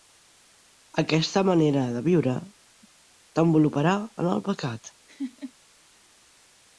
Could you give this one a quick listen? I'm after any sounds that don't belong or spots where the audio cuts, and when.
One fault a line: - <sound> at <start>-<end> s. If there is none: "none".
- laugh at 5.1-5.5 s